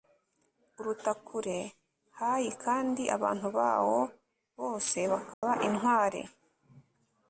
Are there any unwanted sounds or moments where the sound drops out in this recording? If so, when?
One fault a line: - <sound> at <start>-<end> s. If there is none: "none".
- dropout at 5.3-5.4 s